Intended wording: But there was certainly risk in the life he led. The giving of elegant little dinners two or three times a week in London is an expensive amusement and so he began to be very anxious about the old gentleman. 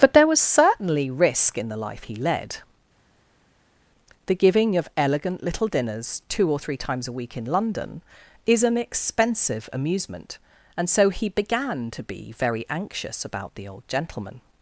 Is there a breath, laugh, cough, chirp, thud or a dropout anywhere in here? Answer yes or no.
no